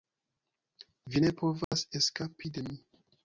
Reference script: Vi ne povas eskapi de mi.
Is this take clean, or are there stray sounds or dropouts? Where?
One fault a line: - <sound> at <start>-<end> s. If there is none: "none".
- dropout at 1.6-1.7 s